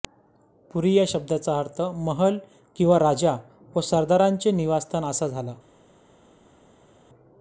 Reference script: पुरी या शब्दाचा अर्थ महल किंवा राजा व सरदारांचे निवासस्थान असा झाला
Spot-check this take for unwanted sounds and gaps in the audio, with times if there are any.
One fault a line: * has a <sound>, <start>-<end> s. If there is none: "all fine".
all fine